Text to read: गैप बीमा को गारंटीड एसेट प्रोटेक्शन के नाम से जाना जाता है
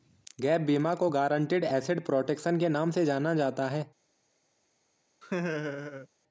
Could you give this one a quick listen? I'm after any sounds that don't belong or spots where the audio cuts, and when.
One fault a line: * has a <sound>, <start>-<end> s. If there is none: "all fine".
* has a laugh, 5.2-6.1 s